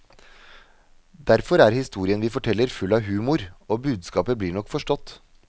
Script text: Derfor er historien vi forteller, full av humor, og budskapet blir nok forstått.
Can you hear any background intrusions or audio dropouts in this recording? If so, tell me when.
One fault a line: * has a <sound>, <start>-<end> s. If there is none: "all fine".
all fine